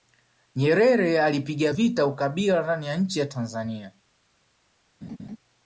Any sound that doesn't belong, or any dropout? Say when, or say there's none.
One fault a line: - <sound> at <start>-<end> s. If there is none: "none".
- laugh at 5.0-5.4 s